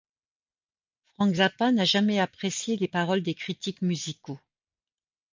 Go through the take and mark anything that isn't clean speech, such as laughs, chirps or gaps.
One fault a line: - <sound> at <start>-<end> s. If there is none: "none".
none